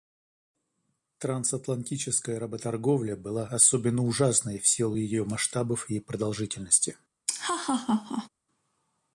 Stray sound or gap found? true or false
true